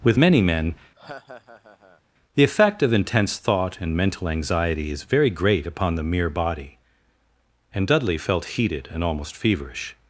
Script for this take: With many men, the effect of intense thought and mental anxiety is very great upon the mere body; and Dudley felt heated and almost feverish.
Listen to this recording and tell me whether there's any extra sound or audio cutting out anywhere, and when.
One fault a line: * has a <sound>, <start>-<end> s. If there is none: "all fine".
* has a laugh, 0.9-2.0 s